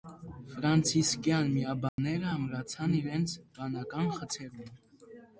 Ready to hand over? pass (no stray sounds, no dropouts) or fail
fail